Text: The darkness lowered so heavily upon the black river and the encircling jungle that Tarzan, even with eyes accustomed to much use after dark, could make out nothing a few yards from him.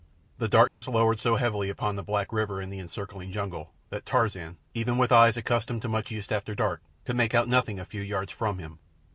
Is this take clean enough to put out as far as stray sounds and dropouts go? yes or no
no